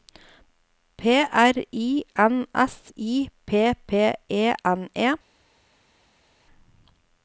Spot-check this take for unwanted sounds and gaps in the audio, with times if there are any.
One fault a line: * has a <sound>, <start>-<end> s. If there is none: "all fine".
all fine